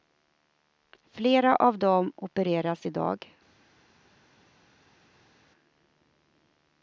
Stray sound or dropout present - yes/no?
no